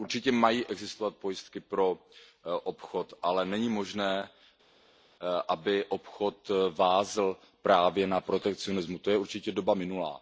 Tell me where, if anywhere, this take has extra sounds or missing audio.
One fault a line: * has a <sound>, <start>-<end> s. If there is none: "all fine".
all fine